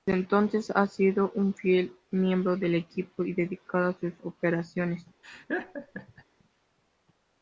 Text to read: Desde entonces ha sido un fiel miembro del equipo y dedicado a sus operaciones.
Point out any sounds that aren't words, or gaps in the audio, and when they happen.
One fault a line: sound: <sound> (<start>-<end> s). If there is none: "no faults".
sound: laugh (5.2-6.2 s)